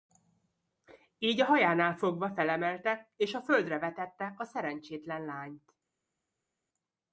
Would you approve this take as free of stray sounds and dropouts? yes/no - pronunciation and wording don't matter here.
yes